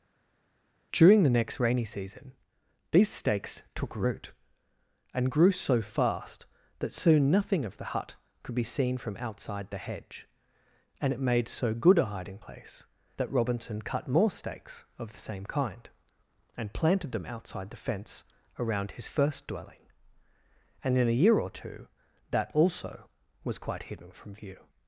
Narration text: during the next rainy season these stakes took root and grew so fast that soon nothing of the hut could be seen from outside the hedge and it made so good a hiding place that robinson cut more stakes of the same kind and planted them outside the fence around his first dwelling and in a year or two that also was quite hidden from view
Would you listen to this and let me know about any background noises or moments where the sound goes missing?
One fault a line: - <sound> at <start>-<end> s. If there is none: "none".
none